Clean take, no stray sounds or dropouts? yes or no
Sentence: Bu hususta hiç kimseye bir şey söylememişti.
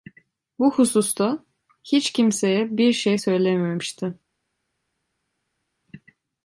yes